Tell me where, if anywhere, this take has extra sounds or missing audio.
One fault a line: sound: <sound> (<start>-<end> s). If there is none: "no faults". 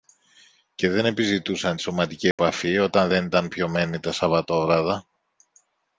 sound: dropout (2.3-2.4 s)